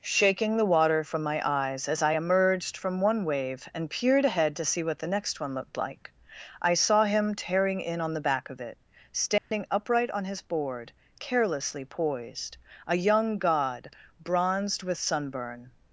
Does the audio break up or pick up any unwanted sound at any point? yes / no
yes